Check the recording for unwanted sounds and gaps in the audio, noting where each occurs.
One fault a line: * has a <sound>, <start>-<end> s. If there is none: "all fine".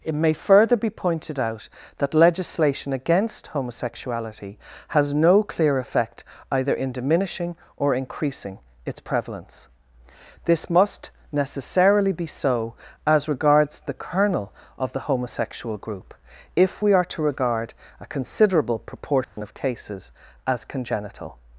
* has a dropout, 19.2-19.4 s